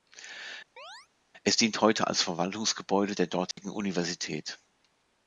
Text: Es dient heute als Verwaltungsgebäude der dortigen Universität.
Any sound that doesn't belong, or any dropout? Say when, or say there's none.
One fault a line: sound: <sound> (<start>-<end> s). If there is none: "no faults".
sound: chirp (0.8-1.1 s)
sound: dropout (3.5-3.6 s)